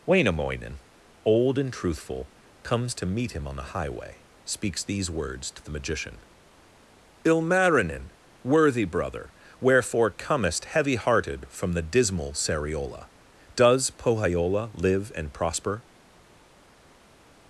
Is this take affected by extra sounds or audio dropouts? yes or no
no